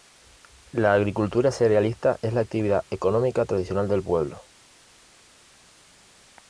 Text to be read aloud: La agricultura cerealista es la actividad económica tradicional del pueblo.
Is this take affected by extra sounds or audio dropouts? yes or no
no